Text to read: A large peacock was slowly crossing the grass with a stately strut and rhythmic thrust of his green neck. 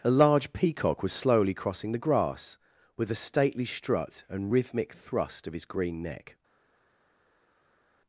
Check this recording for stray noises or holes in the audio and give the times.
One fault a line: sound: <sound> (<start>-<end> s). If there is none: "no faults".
no faults